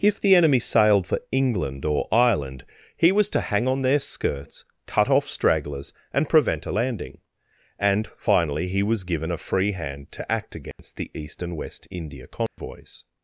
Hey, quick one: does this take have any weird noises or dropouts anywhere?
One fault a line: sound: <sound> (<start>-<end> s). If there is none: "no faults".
sound: dropout (10.7-10.8 s)
sound: dropout (12.5-12.6 s)